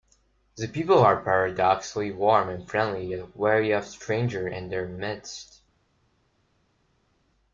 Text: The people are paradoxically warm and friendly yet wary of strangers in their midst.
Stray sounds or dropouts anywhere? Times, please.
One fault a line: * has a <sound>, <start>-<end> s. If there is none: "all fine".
all fine